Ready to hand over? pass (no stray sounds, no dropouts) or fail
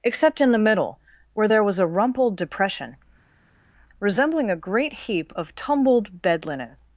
pass